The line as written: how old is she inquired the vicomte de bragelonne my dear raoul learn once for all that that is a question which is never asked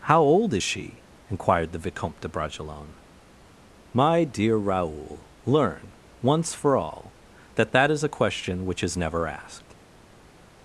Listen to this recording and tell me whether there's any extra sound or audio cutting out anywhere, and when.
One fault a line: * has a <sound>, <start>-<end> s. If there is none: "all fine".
all fine